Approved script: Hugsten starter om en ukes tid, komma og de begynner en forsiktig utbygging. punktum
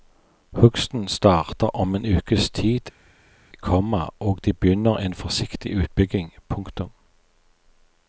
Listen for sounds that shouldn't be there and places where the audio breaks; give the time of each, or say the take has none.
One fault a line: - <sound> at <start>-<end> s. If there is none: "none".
none